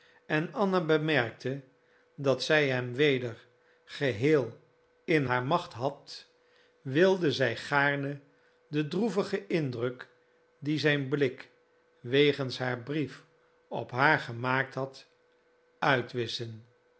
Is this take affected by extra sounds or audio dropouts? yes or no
no